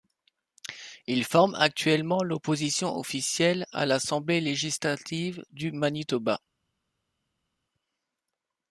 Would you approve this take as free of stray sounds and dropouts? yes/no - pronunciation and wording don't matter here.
yes